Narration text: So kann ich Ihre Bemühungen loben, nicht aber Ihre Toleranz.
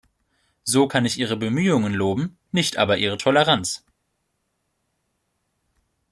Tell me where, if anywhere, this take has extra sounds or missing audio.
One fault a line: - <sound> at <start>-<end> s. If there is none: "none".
none